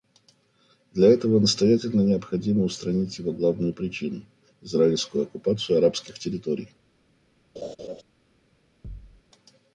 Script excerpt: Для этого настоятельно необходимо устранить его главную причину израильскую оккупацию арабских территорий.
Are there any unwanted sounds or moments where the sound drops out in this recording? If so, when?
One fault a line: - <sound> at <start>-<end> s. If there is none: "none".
- laugh at 7.6-8.0 s
- thud at 8.8-9.2 s